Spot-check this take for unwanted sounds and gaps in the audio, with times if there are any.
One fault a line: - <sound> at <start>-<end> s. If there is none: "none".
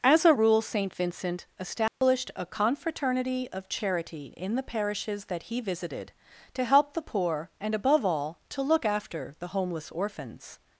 - dropout at 1.9-2.0 s